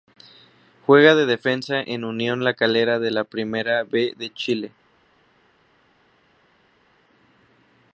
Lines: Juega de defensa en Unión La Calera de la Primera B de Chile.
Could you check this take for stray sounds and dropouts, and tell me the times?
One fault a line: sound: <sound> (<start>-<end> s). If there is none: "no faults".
no faults